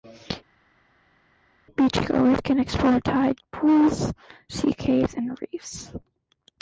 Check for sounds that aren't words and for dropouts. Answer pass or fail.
pass